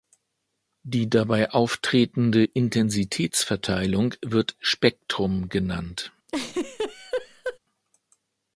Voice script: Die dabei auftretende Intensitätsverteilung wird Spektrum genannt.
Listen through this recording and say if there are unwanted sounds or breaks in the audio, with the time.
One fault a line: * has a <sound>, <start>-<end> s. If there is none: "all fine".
* has a laugh, 6.3-7.6 s